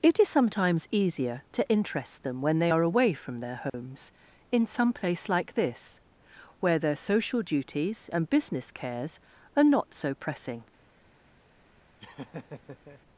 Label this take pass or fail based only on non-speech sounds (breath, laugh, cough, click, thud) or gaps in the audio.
fail